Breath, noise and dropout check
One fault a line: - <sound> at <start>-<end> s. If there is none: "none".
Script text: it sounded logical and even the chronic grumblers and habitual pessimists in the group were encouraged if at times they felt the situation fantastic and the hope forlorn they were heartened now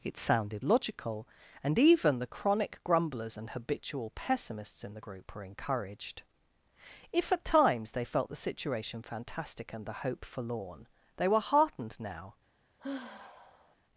- sigh at 12.8-13.8 s